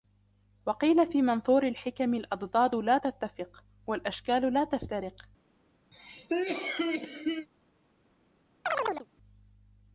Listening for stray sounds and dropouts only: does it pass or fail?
fail